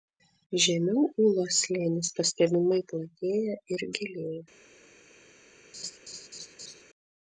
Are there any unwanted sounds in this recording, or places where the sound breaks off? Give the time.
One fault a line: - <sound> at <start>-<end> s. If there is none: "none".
- laugh at 5.7-6.8 s